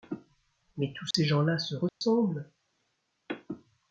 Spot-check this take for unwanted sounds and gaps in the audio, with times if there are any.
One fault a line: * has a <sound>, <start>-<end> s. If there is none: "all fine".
* has a dropout, 1.1-1.1 s
* has a dropout, 1.9-2.0 s